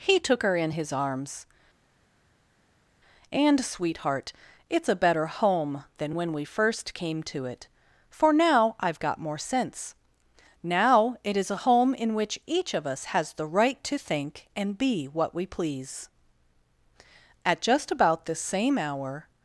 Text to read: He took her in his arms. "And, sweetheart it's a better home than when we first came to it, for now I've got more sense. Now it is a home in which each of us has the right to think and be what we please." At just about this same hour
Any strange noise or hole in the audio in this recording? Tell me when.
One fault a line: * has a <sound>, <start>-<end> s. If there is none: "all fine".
all fine